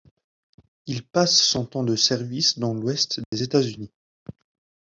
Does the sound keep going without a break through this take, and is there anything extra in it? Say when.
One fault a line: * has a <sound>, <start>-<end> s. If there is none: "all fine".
* has a dropout, 3.2-3.3 s